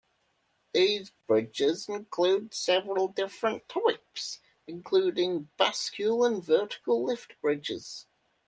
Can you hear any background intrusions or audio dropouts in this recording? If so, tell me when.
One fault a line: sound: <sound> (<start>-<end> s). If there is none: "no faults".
no faults